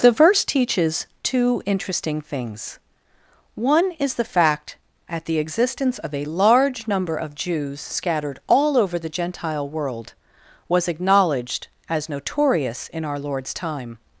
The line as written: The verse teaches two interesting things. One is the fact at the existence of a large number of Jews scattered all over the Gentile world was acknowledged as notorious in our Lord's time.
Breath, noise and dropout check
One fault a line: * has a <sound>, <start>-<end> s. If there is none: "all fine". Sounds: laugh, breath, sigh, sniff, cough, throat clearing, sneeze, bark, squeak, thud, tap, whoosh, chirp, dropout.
all fine